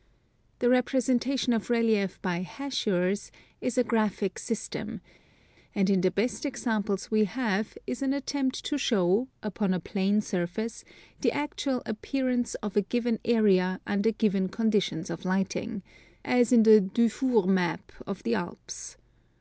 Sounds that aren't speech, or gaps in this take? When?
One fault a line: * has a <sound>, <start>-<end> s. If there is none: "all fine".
all fine